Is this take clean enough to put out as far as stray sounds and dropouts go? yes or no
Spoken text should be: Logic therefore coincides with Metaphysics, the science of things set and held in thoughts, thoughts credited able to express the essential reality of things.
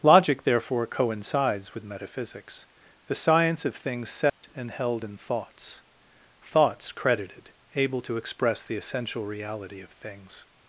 no